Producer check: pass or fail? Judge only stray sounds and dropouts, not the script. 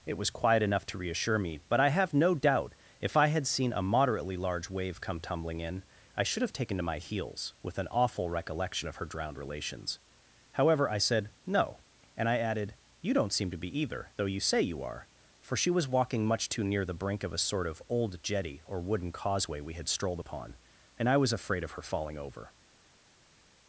pass